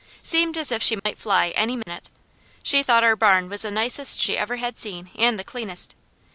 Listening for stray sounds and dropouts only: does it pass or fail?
fail